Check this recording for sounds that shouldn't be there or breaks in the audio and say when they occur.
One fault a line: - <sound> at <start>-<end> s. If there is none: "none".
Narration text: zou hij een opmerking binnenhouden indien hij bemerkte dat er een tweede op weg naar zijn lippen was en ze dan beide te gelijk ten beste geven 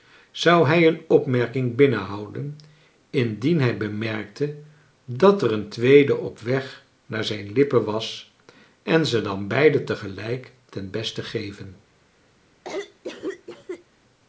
- cough at 12.6-13.9 s